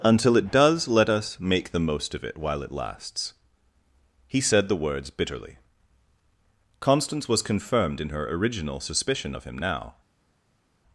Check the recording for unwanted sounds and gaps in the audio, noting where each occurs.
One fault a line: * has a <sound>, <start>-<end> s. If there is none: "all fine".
all fine